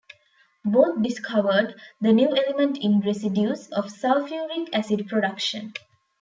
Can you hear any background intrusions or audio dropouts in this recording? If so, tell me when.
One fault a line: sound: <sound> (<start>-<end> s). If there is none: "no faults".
no faults